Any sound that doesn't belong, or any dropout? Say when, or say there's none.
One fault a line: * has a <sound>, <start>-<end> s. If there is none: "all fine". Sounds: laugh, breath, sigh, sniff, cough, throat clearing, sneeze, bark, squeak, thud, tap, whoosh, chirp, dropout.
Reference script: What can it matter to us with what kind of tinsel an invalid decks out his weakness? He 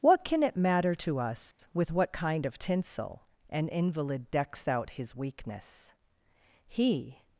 * has a dropout, 1.5-1.6 s